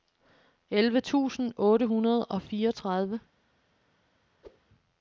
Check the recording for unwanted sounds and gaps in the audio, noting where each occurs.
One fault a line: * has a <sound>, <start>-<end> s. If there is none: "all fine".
* has a whoosh, 4.4-4.6 s